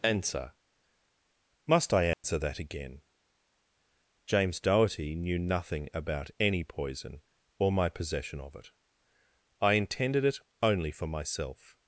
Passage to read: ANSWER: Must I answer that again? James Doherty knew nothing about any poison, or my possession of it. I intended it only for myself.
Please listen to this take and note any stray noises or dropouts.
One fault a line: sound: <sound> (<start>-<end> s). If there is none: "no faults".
sound: dropout (2.1-2.2 s)